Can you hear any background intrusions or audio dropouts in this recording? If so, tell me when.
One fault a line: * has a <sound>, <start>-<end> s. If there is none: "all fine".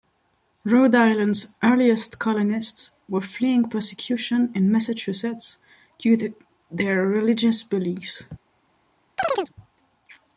* has a chirp, 9.2-9.5 s